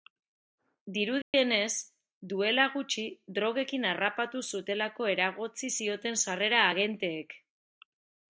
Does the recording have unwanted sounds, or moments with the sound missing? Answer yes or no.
yes